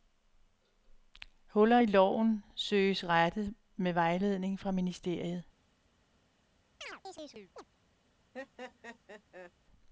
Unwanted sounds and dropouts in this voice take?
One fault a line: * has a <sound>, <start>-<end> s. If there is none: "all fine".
* has a chirp, 6.8-7.7 s
* has a laugh, 8.3-9.5 s